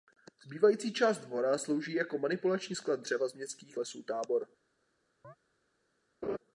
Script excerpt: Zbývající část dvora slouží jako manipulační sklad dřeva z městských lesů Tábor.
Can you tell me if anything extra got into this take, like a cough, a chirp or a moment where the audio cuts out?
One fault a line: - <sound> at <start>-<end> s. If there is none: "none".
- chirp at 5.2-5.4 s
- laugh at 6.2-6.4 s